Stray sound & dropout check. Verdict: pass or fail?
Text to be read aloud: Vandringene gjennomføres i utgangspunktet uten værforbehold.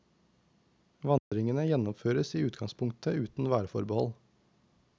fail